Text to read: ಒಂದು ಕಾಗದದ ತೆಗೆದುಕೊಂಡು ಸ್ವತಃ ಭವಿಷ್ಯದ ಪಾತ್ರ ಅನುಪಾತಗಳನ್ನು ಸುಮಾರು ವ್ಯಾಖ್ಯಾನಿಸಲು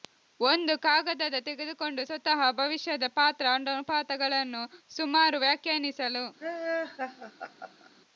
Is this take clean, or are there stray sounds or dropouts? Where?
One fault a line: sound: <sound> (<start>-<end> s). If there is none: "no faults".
sound: laugh (6.4-7.9 s)